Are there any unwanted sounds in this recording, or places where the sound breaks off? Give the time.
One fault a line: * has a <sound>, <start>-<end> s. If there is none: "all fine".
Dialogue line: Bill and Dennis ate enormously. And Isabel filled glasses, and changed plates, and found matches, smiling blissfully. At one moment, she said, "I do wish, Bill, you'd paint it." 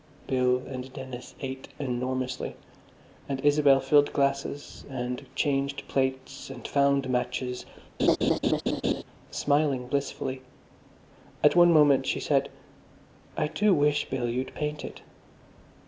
* has a laugh, 8.0-9.0 s